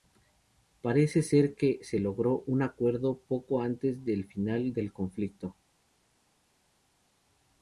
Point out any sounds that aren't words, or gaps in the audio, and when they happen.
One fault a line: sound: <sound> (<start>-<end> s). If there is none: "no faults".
no faults